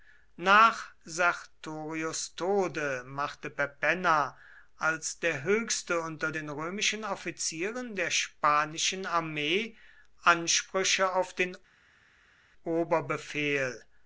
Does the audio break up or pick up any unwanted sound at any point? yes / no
no